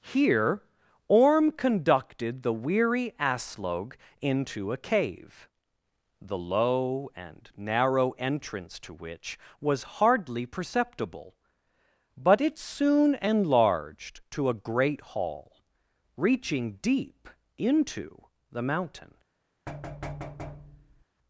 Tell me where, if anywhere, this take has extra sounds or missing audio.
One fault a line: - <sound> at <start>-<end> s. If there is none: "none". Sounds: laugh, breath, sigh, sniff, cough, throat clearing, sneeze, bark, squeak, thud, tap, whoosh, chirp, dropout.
- thud at 19.7-21.0 s